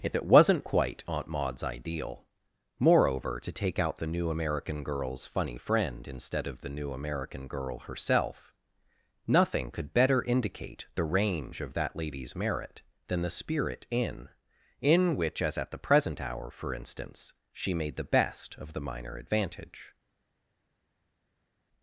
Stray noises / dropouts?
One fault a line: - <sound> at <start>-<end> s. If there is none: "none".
none